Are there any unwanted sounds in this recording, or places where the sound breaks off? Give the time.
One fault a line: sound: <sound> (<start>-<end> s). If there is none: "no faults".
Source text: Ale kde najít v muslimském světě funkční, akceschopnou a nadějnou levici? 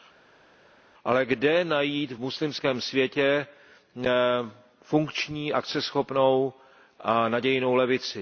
no faults